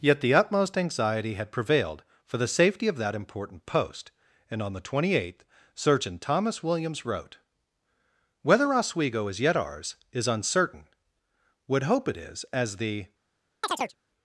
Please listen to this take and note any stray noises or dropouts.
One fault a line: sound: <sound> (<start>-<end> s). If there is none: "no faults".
sound: chirp (13.6-14.0 s)